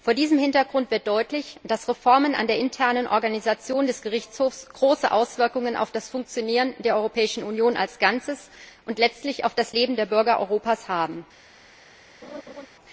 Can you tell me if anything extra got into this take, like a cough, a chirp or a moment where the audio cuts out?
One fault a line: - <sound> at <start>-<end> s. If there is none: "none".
- laugh at 12.2-12.7 s